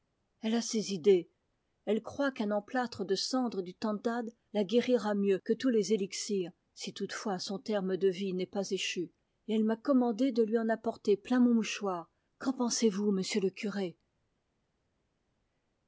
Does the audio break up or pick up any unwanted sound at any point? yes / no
no